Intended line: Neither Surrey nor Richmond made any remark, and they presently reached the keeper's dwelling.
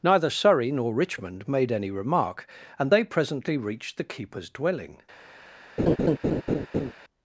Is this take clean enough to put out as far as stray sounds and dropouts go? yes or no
no